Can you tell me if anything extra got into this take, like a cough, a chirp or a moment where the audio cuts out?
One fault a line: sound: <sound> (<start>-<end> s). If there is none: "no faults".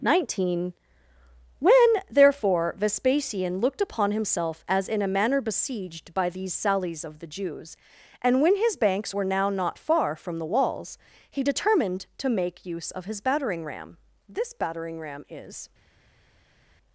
no faults